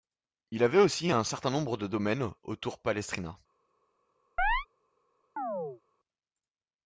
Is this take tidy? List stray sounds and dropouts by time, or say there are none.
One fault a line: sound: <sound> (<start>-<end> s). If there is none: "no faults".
sound: chirp (4.4-4.7 s)
sound: chirp (5.4-5.8 s)